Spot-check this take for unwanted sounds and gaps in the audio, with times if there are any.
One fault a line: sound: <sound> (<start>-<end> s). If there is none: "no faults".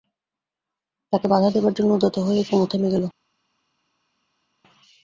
no faults